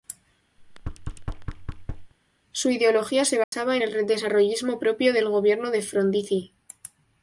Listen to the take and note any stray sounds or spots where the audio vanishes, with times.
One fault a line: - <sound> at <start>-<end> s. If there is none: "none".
- thud at 0.6-2.1 s
- dropout at 3.4-3.5 s